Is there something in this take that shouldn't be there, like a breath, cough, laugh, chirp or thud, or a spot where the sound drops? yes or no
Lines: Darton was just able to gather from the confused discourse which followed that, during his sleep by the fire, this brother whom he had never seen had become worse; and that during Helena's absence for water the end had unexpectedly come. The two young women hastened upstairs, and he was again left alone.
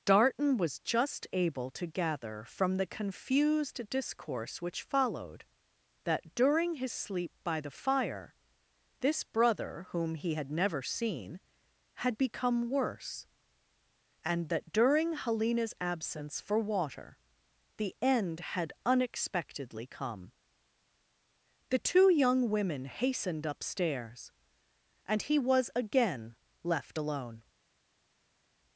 no